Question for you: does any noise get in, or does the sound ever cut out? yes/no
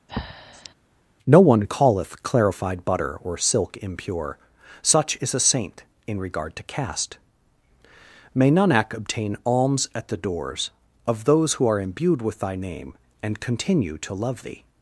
yes